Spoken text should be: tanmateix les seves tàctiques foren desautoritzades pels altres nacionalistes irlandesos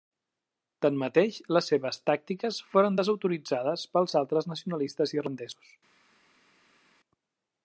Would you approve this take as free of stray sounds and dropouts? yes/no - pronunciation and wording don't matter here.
yes